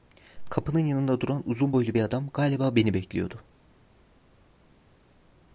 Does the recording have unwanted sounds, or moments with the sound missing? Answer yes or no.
no